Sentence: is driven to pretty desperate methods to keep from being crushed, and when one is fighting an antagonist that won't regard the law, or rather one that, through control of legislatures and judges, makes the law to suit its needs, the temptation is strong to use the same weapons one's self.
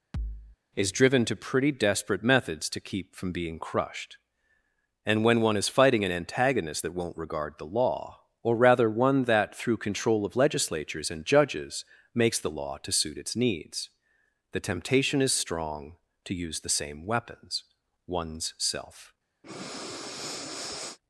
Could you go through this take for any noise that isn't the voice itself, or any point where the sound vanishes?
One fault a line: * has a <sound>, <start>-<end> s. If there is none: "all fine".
* has a thud, 0.1-0.6 s
* has a breath, 19.4-21.0 s